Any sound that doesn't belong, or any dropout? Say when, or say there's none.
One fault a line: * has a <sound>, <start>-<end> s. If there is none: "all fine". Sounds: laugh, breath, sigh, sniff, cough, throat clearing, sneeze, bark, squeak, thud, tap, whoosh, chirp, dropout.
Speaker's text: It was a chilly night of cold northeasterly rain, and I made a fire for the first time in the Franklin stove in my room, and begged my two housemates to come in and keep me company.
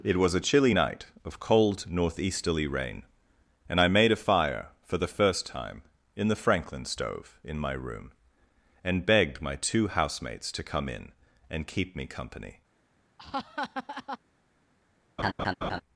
* has a laugh, 13.2-14.2 s
* has a laugh, 15.2-15.8 s